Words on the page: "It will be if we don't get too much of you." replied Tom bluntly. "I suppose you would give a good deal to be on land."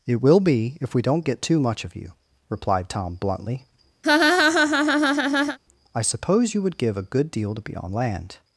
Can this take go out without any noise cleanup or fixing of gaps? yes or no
no